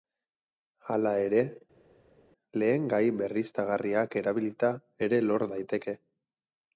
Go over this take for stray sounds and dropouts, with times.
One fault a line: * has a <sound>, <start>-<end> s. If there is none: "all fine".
all fine